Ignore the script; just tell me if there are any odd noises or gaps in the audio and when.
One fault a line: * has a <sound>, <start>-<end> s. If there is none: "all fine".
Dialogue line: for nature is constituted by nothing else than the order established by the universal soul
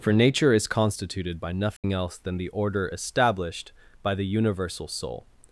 * has a dropout, 1.8-1.8 s